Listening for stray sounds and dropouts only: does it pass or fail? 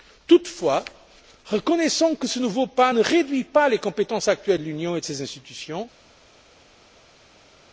pass